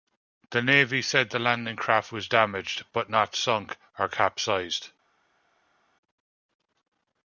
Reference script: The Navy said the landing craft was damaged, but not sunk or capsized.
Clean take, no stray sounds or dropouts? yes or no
yes